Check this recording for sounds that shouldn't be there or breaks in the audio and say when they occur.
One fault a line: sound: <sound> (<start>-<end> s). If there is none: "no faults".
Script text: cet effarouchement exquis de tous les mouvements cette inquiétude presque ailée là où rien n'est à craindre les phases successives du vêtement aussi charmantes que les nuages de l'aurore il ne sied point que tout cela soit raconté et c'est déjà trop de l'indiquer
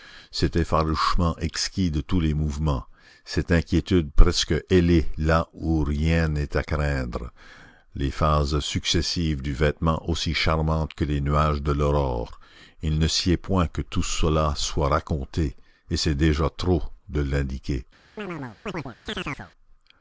sound: chirp (18.2-19.5 s)